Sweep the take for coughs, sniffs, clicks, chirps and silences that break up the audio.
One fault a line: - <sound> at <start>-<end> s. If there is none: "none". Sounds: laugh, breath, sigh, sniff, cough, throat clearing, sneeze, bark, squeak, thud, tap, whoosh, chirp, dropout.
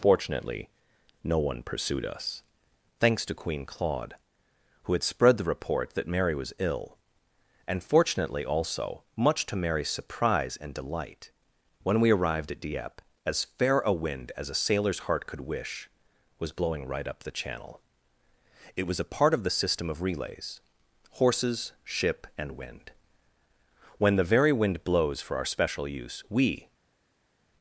none